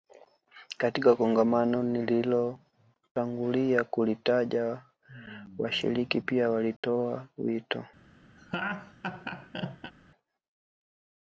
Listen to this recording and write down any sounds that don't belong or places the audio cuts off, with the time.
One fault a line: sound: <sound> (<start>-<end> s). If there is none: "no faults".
sound: dropout (6.8-6.8 s)
sound: laugh (8.4-9.9 s)